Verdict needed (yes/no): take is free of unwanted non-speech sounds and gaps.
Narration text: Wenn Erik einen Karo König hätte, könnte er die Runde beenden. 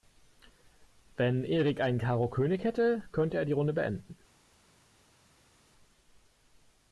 yes